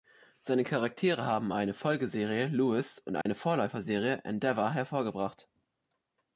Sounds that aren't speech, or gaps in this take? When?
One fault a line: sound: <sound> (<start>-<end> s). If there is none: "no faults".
sound: dropout (3.2-3.3 s)